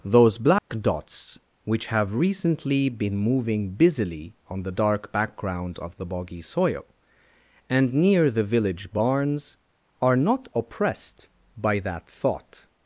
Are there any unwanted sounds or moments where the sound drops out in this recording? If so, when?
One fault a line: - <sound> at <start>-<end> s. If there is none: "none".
- dropout at 0.6-0.7 s